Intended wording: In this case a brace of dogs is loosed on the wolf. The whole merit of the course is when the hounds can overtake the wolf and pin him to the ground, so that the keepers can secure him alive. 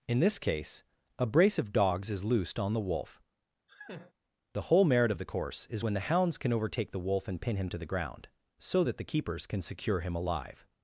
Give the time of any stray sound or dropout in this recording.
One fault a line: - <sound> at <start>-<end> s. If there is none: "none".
- laugh at 3.7-4.1 s